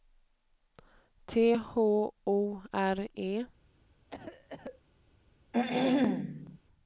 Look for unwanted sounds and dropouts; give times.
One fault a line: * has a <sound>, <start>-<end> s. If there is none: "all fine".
* has a cough, 4.1-4.8 s
* has a throat clearing, 5.5-6.6 s